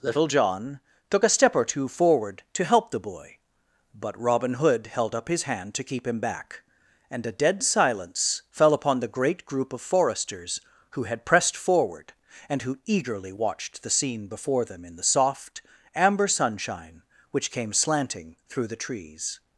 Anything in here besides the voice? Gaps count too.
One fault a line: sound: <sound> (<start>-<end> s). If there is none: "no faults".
no faults